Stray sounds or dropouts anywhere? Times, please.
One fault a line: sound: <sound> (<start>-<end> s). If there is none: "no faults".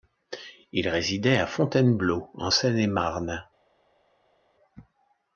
no faults